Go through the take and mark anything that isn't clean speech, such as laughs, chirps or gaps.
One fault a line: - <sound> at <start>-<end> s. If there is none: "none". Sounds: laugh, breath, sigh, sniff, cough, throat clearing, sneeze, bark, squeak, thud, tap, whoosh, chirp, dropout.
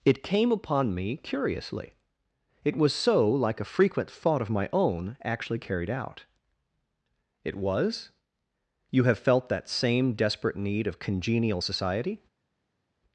none